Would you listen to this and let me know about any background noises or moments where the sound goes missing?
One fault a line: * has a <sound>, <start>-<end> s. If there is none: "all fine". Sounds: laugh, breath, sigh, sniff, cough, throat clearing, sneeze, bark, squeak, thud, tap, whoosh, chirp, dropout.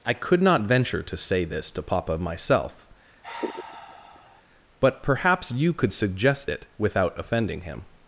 * has a sigh, 3.2-4.4 s